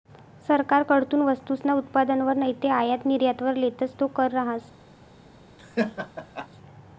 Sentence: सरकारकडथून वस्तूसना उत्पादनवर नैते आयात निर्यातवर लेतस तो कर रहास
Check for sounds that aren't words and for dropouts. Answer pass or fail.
fail